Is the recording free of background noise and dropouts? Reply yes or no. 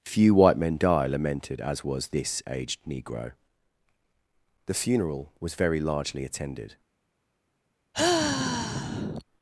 no